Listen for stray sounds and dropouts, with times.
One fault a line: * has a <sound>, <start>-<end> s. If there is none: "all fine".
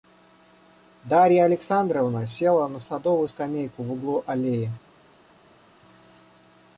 all fine